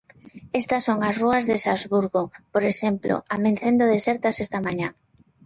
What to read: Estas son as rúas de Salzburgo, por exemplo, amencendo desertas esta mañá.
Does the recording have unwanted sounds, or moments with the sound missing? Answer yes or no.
no